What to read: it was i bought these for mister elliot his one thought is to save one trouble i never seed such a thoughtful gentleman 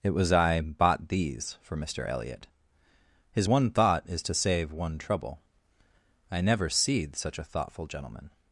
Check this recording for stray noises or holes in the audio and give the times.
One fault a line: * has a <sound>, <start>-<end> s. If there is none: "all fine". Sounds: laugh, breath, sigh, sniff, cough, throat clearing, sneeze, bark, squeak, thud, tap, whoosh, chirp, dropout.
all fine